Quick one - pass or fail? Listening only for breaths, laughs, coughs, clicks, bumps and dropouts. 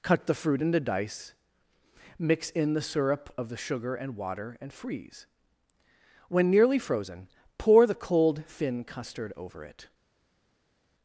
pass